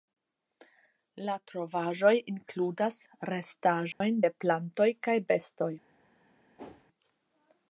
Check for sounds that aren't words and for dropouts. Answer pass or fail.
fail